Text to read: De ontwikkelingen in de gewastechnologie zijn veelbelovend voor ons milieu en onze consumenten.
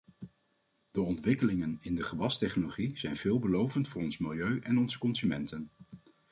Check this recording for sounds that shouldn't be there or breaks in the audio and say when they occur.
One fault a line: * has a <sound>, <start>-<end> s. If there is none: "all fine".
all fine